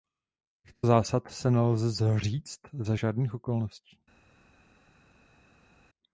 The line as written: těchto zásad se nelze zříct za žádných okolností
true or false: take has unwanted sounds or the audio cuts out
false